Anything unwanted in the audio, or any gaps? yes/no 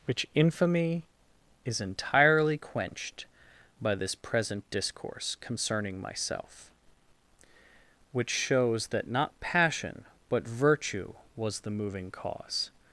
no